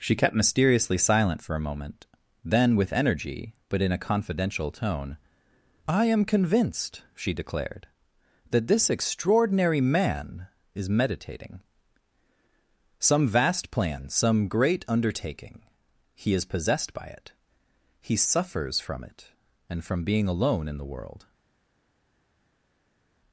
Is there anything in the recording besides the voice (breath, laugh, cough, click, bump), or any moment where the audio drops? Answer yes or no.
no